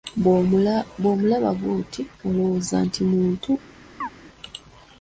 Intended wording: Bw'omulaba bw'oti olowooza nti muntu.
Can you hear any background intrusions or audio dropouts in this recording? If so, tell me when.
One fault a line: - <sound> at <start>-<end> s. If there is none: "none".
- chirp at 4.0-4.1 s